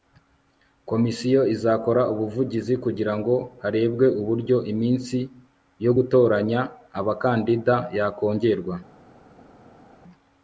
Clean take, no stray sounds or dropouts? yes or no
yes